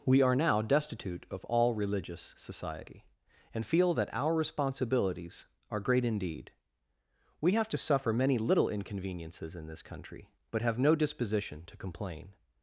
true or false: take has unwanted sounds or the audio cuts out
false